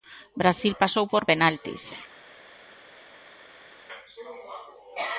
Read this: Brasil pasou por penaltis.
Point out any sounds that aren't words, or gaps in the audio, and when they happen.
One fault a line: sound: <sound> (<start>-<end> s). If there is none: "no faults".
no faults